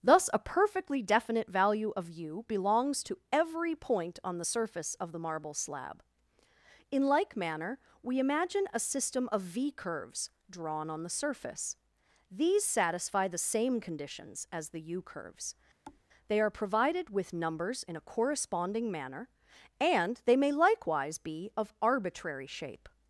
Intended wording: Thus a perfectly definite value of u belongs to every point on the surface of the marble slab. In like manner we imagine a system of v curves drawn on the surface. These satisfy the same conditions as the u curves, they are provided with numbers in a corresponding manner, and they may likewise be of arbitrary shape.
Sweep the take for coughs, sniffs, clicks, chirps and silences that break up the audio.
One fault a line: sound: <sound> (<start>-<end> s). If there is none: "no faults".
sound: thud (15.9-16.1 s)